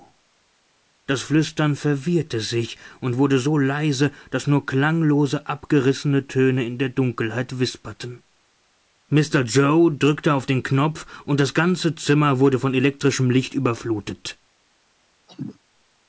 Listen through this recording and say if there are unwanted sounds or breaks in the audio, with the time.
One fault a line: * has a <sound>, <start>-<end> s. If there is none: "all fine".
* has a cough, 15.3-15.6 s